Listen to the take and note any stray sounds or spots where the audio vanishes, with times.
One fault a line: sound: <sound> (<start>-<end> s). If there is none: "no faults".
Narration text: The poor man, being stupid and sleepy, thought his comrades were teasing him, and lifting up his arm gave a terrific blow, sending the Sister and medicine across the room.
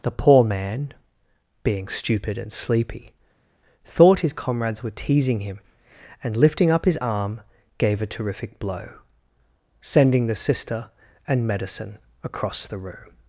no faults